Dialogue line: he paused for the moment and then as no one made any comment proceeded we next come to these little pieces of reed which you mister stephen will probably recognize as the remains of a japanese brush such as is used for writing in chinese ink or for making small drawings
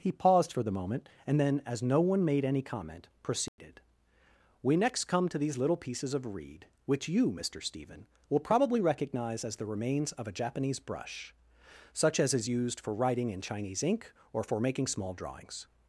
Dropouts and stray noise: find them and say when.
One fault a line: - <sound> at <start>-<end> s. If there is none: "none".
- dropout at 3.5-3.6 s